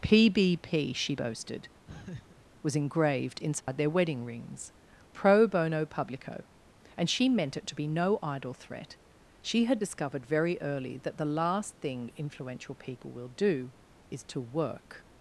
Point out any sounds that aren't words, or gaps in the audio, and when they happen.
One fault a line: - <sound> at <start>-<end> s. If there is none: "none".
- laugh at 1.9-2.5 s
- dropout at 3.6-3.7 s